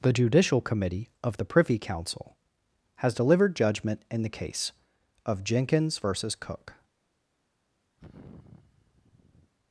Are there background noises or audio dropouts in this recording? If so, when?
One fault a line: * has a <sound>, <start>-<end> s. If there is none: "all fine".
* has a sigh, 8.0-9.5 s